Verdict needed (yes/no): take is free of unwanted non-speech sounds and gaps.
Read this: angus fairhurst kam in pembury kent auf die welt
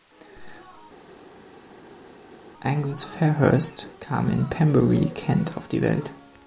yes